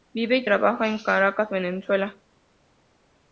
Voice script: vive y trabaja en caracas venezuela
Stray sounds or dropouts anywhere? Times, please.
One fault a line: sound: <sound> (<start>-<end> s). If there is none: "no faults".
no faults